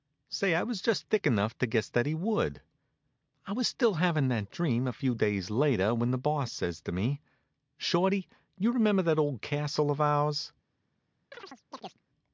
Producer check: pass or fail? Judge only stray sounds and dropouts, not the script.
fail